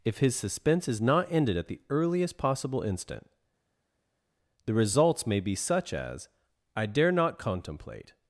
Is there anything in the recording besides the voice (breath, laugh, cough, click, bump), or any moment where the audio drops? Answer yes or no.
no